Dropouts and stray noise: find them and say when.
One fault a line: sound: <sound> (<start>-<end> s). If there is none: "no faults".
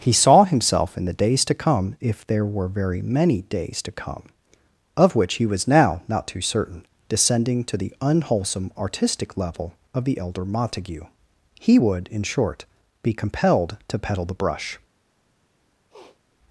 sound: sniff (15.9-16.2 s)